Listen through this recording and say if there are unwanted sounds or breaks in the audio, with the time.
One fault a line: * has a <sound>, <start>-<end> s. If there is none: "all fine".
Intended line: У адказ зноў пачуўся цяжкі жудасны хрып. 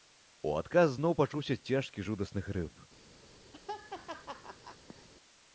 * has a laugh, 3.5-5.1 s